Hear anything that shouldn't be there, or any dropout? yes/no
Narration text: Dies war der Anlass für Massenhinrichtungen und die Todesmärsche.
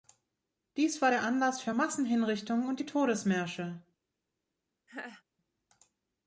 yes